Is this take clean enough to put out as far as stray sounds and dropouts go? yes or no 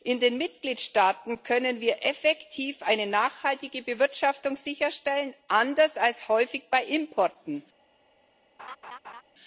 no